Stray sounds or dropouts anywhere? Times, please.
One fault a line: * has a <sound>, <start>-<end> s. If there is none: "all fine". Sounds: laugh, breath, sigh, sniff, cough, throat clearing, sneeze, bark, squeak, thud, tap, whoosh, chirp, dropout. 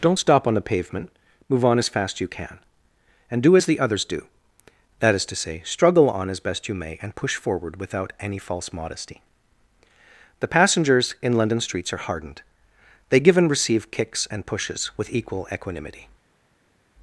all fine